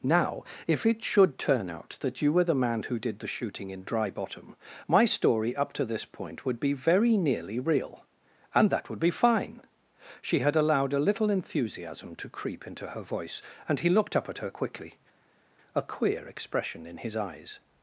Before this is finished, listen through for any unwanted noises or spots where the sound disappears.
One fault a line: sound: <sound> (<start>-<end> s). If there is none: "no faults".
no faults